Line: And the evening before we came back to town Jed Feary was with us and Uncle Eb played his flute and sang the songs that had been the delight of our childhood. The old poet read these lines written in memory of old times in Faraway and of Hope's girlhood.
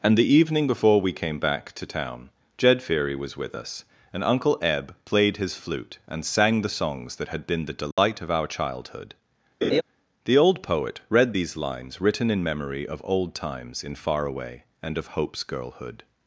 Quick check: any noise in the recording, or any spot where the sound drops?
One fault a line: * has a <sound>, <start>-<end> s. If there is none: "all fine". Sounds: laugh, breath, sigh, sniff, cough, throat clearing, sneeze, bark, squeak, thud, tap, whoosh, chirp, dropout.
* has a dropout, 7.9-8.0 s
* has a laugh, 9.6-9.8 s